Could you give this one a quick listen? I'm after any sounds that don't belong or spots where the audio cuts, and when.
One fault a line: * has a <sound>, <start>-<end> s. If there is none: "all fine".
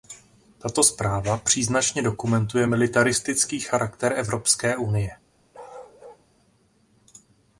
* has a bark, 5.5-6.3 s